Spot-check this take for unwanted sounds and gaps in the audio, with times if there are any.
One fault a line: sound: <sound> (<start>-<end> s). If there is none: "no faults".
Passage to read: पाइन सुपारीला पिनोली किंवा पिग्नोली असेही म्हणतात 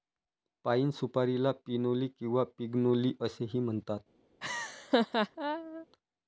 sound: laugh (4.4-5.9 s)